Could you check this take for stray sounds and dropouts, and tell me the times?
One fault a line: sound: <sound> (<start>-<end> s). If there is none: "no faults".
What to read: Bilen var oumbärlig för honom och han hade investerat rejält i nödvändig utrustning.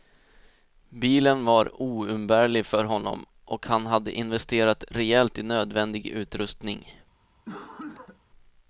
sound: cough (7.5-8.2 s)